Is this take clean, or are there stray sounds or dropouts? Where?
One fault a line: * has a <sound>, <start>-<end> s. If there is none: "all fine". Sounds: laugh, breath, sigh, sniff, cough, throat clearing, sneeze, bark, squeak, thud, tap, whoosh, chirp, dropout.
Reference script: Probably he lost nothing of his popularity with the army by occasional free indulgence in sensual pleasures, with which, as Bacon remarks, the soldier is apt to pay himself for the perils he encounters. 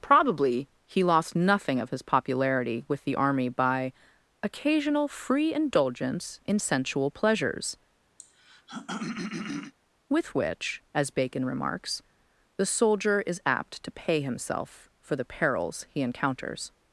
* has a throat clearing, 8.2-9.7 s